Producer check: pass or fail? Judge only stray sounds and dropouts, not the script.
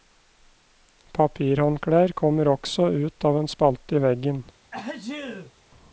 fail